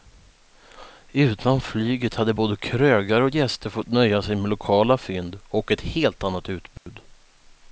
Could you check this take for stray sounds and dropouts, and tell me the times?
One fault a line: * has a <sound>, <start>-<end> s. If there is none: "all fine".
* has a dropout, 6.8-6.9 s